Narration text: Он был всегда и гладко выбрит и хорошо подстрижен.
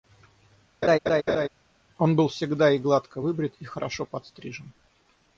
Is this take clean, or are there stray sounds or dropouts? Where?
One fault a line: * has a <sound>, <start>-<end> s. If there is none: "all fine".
* has a laugh, 0.8-1.5 s